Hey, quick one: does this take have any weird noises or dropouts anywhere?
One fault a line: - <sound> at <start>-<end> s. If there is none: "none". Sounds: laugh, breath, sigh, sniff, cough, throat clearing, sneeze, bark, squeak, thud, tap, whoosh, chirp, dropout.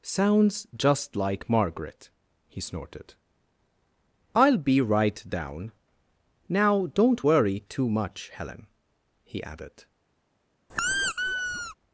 - squeak at 10.7-11.7 s